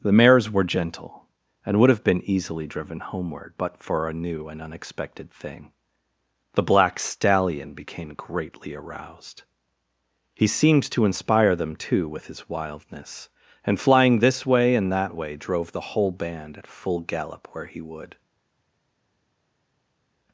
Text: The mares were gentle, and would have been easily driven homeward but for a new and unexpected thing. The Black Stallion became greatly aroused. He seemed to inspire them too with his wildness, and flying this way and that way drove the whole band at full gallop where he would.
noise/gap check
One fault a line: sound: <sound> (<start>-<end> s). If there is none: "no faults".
no faults